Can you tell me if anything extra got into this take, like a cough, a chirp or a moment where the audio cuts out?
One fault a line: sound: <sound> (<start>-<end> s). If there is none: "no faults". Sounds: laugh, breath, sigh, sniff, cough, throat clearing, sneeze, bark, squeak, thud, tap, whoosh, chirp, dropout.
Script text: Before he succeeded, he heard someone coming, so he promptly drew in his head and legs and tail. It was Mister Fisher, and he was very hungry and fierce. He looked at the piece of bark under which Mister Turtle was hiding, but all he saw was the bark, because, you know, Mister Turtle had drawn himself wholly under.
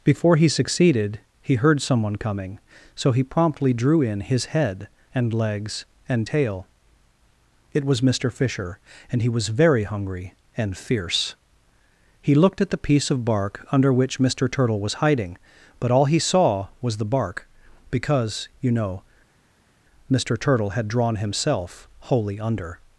no faults